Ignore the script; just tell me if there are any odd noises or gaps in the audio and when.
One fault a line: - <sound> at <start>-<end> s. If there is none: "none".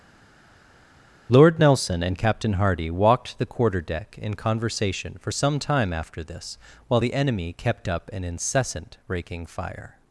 none